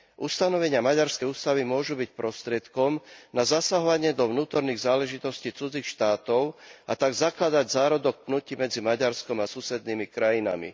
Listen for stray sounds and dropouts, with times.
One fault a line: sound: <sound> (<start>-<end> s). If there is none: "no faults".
no faults